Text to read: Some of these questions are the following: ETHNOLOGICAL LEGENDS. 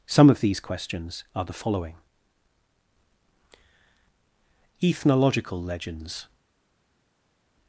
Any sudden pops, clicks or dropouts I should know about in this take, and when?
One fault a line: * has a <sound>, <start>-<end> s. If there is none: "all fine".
all fine